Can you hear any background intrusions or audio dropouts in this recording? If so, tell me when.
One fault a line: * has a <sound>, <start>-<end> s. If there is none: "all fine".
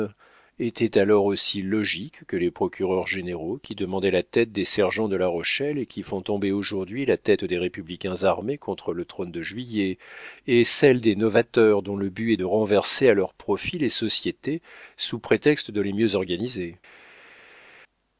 all fine